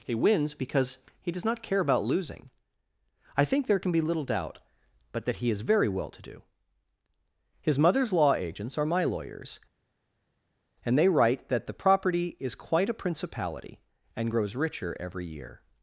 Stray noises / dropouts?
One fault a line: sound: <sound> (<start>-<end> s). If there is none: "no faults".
no faults